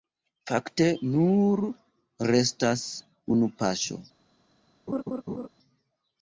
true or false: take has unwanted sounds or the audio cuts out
true